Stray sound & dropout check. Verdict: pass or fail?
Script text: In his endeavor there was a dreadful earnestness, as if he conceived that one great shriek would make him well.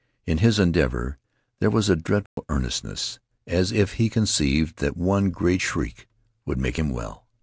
fail